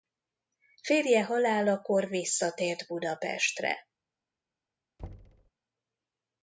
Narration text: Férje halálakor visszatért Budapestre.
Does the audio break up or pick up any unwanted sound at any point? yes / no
yes